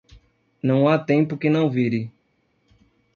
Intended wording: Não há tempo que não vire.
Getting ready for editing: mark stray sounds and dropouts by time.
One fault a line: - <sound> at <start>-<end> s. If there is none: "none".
none